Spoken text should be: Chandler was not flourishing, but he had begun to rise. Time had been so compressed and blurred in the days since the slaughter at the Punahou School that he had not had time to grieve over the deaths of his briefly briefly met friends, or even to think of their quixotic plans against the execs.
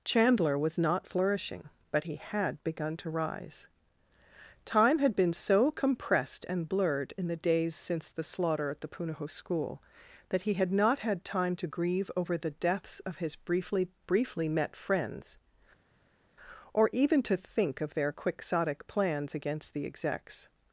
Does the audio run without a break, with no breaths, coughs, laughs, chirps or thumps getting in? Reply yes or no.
yes